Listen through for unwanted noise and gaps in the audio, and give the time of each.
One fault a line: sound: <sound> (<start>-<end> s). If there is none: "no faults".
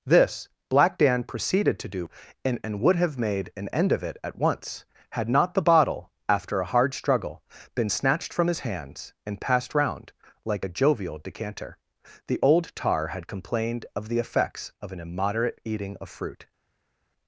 no faults